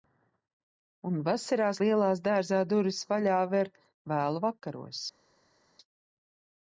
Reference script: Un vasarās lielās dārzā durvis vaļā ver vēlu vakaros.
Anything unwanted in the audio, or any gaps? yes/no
no